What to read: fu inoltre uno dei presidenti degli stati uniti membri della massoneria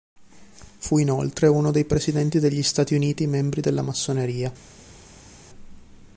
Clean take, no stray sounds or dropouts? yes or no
yes